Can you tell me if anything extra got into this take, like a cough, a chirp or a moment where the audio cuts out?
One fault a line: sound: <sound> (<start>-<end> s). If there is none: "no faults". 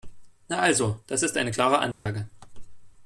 sound: dropout (1.9-2.1 s)